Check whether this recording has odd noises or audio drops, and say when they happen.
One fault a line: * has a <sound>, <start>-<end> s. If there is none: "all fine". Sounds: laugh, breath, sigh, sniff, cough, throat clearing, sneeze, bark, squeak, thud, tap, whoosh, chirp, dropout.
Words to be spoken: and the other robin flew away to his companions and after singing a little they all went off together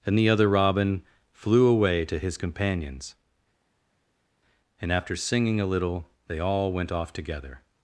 all fine